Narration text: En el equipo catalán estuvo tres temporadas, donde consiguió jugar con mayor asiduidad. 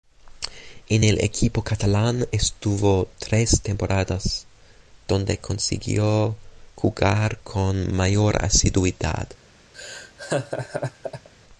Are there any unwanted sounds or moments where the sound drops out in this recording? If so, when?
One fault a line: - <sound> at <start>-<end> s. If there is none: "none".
- laugh at 9.7-11.3 s